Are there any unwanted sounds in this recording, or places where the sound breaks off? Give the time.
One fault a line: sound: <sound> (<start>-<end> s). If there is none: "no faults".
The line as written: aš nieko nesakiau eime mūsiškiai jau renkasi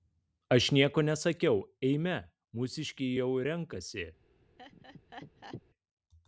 sound: laugh (4.6-5.6 s)